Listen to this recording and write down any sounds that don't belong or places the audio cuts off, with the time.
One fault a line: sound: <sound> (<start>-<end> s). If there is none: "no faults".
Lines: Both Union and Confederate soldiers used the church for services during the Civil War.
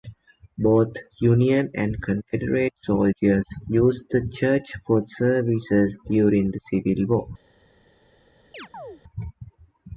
sound: chirp (8.5-9.0 s)